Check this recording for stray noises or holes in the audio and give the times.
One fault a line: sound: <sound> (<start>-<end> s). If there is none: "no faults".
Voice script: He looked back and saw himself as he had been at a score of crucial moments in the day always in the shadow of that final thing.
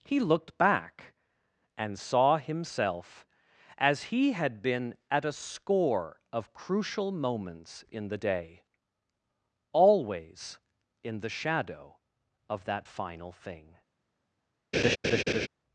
sound: laugh (14.7-15.5 s)